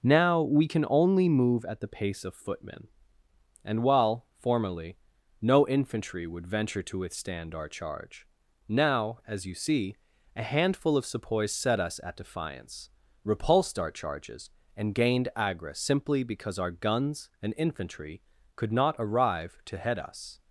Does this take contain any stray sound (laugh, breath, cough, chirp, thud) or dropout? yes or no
no